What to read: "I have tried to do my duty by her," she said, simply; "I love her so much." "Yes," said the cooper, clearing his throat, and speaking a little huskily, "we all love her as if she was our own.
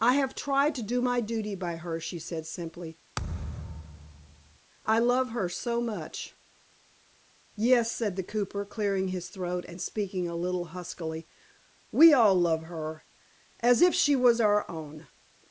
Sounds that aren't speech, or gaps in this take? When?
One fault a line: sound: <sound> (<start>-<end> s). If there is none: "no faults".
sound: thud (3.2-4.6 s)